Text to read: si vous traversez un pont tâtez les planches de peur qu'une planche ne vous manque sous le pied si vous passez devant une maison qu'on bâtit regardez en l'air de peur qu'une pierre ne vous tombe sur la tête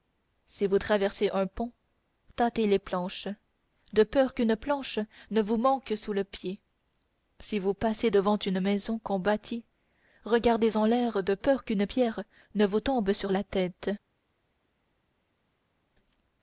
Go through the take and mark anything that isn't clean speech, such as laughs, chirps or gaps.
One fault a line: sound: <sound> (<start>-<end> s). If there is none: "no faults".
no faults